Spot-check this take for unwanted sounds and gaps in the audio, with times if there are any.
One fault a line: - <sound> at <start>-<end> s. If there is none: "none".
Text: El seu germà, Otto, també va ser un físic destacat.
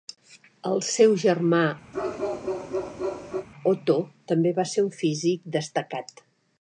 - bark at 1.9-3.5 s